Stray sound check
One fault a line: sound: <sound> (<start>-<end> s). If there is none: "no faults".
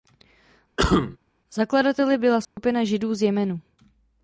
sound: cough (0.8-1.2 s)
sound: dropout (2.4-2.6 s)